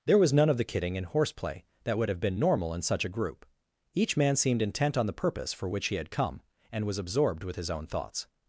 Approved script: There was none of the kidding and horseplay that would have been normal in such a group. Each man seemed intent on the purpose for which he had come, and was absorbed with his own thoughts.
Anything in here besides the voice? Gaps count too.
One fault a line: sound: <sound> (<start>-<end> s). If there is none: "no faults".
no faults